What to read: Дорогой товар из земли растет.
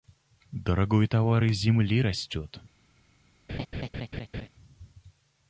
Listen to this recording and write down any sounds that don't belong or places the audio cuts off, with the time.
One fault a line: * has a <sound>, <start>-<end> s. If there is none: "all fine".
* has a laugh, 3.5-4.5 s